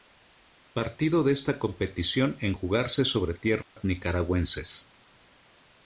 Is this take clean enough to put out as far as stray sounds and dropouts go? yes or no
no